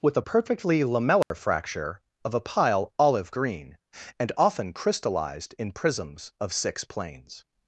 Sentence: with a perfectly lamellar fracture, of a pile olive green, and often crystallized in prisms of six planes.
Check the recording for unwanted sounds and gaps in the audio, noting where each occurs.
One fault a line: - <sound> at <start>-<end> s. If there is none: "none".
- dropout at 1.2-1.3 s